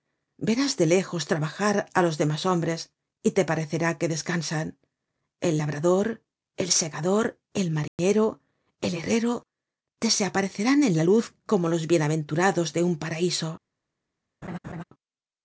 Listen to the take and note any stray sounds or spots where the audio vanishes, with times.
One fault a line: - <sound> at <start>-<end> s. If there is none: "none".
- dropout at 7.9-8.0 s
- laugh at 14.4-14.8 s